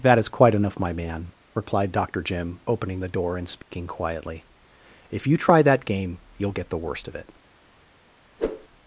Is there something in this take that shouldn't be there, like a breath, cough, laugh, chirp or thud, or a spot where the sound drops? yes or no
yes